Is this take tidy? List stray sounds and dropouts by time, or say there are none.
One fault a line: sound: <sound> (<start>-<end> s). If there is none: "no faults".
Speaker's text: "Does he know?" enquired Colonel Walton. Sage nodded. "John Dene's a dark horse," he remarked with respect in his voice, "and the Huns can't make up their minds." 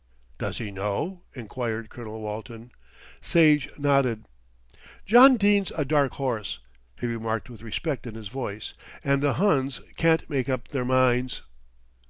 no faults